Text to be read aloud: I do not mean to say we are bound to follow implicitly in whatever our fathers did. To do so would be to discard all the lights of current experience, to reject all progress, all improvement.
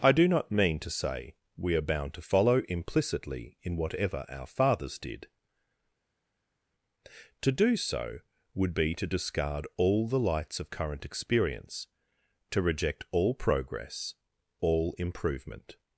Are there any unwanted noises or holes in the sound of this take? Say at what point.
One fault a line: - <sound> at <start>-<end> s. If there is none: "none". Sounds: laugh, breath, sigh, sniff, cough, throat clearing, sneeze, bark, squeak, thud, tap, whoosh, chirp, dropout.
none